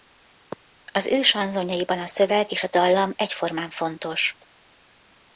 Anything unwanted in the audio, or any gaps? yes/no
no